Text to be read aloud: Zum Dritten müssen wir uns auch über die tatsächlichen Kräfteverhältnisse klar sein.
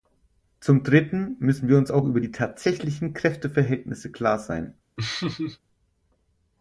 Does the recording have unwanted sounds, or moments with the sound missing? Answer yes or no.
yes